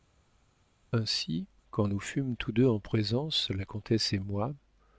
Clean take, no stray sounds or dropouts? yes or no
yes